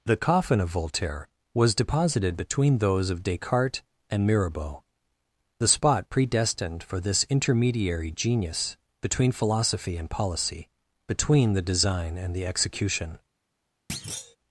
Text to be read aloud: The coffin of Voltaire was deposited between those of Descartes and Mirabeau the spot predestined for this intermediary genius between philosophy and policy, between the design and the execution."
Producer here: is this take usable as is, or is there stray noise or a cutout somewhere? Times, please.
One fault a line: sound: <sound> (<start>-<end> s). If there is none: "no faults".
sound: thud (13.9-14.4 s)